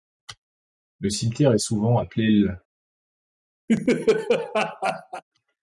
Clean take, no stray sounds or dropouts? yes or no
no